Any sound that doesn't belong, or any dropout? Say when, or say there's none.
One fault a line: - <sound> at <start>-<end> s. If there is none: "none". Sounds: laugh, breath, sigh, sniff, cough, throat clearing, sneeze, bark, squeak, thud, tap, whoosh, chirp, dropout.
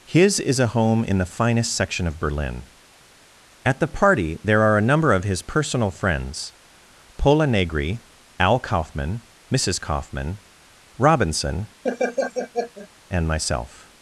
- laugh at 11.8-12.9 s